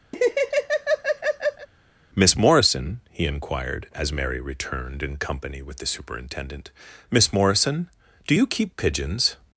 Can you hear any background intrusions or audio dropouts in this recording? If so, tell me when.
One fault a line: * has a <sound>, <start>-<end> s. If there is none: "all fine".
* has a laugh, 0.1-1.7 s